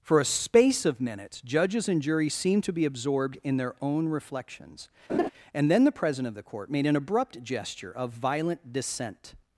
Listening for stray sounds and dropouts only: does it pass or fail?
fail